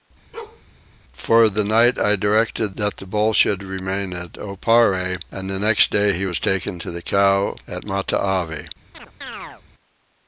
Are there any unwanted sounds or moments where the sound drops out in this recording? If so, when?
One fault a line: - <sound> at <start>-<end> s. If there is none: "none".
- bark at 0.3-0.6 s
- chirp at 8.9-9.6 s